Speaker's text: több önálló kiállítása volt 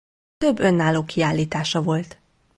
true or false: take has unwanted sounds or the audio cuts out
false